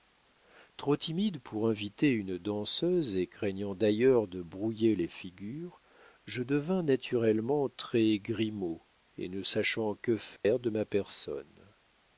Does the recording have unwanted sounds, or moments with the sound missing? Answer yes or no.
yes